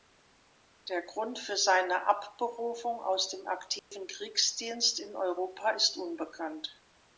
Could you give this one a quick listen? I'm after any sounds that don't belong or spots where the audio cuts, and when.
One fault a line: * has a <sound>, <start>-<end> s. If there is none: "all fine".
* has a dropout, 3.8-3.9 s